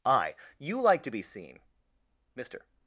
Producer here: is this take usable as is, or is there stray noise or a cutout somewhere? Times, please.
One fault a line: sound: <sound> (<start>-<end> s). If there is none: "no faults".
no faults